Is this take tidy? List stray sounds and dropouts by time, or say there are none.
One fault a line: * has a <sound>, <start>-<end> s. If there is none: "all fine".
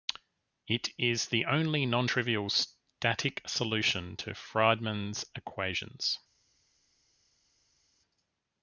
all fine